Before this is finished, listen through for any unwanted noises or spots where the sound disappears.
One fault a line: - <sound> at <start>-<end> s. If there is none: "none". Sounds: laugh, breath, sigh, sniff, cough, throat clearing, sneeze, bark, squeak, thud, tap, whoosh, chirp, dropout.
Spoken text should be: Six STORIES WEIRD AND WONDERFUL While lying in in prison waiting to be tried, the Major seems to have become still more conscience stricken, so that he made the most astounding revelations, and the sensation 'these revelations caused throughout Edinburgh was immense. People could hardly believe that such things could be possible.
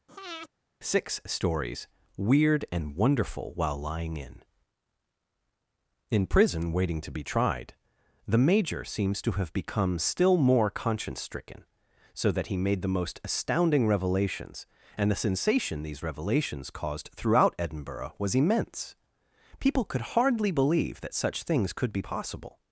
- breath at 0.1-0.5 s